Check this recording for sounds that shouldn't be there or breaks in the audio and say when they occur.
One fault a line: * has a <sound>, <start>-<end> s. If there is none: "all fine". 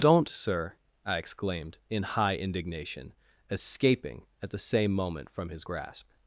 all fine